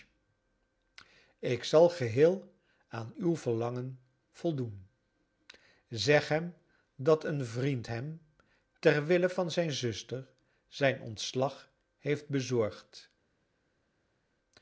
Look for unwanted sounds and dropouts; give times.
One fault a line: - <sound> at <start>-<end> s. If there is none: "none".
none